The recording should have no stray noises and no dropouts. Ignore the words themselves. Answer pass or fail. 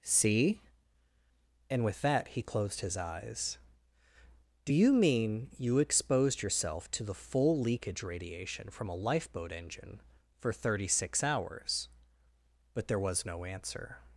pass